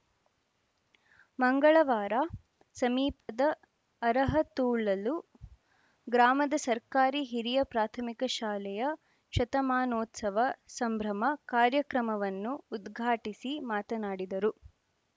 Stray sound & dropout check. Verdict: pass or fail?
fail